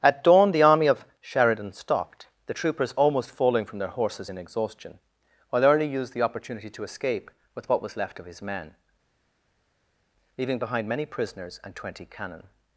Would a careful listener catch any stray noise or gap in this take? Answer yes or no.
no